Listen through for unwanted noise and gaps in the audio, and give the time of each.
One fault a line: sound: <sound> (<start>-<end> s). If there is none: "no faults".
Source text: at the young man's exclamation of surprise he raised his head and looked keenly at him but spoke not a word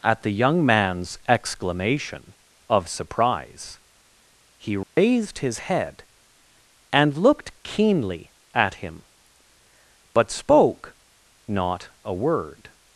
sound: dropout (4.8-5.0 s)